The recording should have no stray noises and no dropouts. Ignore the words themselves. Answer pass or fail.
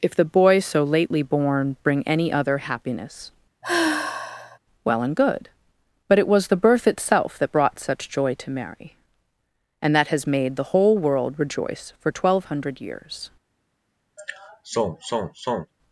fail